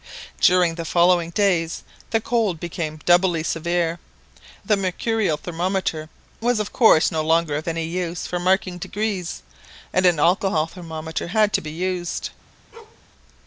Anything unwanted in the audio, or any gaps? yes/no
yes